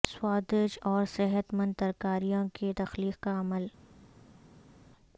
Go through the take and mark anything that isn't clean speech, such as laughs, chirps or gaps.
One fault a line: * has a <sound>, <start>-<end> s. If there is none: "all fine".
all fine